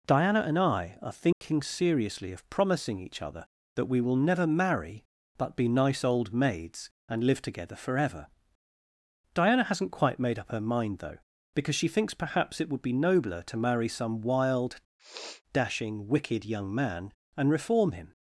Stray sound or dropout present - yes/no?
yes